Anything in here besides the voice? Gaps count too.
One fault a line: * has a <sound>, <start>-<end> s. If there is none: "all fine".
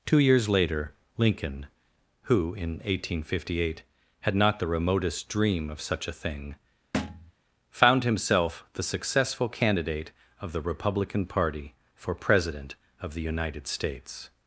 * has a thud, 6.9-7.3 s